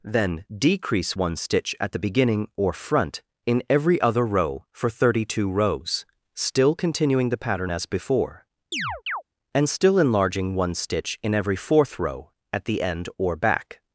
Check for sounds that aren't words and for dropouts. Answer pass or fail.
fail